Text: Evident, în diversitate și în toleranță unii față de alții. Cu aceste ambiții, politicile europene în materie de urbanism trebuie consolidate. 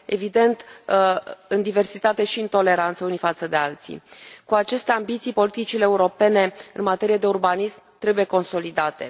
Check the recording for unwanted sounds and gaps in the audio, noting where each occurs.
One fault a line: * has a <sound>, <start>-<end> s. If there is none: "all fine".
all fine